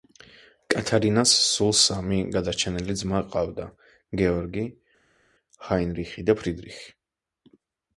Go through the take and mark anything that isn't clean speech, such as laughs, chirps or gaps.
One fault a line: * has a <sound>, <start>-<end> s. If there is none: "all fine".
all fine